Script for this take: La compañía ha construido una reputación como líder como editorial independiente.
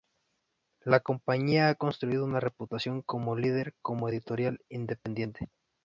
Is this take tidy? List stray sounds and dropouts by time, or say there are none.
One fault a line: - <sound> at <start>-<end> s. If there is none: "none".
none